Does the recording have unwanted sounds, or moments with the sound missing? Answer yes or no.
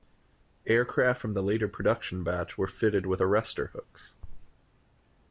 no